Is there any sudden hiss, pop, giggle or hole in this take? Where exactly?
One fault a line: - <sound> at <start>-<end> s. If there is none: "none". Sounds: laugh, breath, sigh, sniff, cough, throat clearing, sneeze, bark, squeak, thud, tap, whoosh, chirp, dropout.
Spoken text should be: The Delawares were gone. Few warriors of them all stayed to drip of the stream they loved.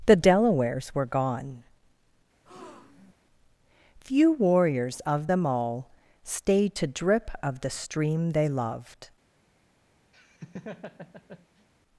- breath at 2.5-3.1 s
- laugh at 10.1-11.7 s